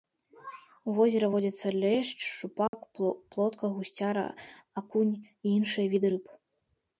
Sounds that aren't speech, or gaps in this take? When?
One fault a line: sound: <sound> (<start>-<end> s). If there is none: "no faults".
sound: dropout (2.7-2.7 s)